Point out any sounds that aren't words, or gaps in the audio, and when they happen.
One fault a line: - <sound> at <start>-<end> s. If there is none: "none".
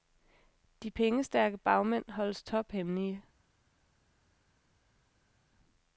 none